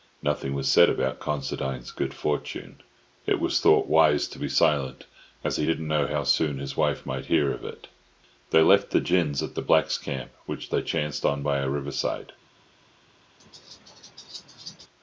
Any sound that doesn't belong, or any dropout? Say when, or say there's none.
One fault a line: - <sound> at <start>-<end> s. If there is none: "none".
- laugh at 13.4-14.9 s